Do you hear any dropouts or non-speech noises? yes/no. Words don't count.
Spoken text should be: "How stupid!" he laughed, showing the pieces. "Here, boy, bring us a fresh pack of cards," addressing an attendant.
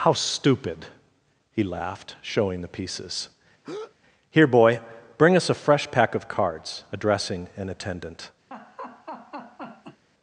yes